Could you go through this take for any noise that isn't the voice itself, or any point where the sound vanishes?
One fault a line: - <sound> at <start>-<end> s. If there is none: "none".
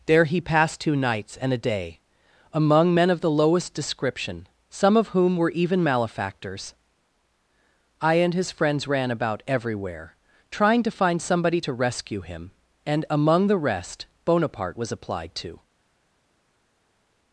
none